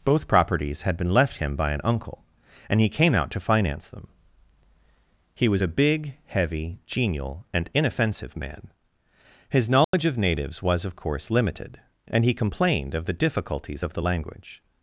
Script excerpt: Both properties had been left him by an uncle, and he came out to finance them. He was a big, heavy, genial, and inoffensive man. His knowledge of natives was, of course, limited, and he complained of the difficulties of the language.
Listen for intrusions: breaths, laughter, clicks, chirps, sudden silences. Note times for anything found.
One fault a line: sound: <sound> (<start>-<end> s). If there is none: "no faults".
sound: dropout (9.8-9.9 s)